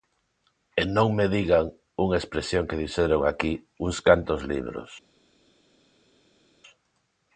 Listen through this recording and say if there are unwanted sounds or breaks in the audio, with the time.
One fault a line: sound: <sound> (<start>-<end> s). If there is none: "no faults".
no faults